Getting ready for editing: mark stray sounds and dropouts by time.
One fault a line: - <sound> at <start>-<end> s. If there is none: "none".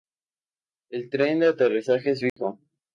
- dropout at 2.3-2.4 s